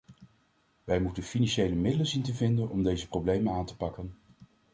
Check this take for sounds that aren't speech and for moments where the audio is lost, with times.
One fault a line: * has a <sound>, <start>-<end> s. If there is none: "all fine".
all fine